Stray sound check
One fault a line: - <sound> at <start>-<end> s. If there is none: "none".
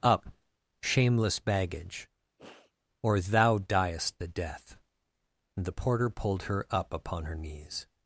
- sniff at 2.4-2.7 s